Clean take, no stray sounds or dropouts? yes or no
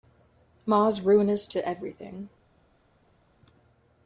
yes